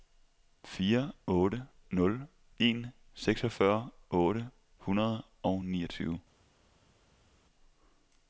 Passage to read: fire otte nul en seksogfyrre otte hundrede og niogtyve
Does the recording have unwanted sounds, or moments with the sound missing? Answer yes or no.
no